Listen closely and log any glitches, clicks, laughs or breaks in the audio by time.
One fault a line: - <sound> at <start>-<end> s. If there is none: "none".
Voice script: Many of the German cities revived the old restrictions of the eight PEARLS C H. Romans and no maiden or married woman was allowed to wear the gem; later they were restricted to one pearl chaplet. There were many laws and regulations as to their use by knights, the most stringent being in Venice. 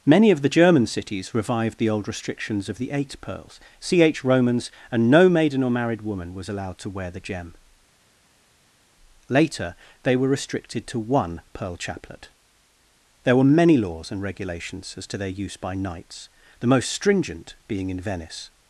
none